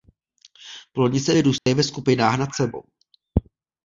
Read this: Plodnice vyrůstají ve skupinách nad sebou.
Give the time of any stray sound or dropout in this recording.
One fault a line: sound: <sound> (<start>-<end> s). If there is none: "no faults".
sound: dropout (1.6-1.7 s)